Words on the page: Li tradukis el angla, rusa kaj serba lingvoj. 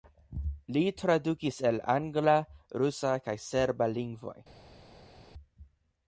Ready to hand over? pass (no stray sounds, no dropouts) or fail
pass